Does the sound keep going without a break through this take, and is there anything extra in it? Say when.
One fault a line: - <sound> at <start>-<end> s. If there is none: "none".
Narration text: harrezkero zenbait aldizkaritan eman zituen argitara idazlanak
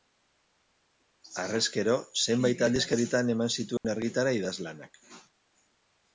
- dropout at 3.8-3.8 s